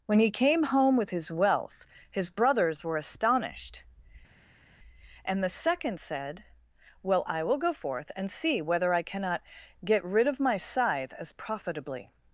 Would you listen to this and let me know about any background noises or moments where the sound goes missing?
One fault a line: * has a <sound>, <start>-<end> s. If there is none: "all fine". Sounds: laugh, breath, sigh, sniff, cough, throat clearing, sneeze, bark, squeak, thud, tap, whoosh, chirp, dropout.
all fine